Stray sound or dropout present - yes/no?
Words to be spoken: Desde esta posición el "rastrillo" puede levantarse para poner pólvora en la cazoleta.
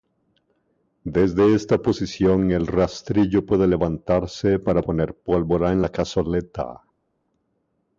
no